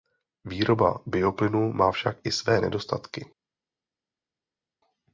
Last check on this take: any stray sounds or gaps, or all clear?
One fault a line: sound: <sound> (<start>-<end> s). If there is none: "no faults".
no faults